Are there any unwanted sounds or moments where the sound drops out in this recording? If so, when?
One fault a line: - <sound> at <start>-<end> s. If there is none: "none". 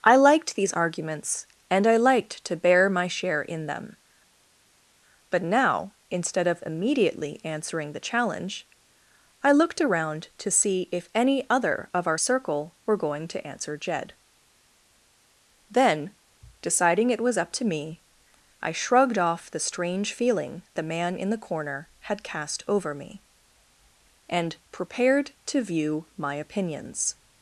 none